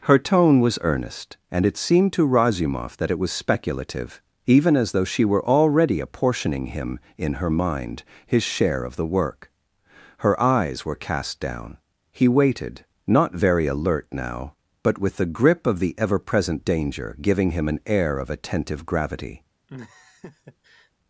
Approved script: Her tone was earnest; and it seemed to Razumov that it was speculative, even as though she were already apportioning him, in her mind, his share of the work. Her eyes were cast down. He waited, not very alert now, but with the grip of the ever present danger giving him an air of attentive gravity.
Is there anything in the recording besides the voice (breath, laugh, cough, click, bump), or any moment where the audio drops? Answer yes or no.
yes